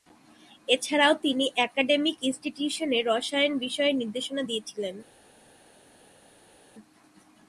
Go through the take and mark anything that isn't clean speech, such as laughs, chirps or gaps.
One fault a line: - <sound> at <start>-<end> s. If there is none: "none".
none